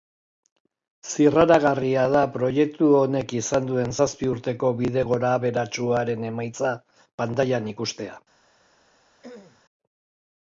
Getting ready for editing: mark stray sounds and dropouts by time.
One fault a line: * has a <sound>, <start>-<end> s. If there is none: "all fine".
* has a throat clearing, 9.2-9.6 s